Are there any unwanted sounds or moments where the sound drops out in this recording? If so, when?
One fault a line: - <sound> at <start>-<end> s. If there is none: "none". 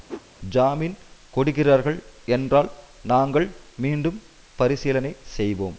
- whoosh at 0.1-0.2 s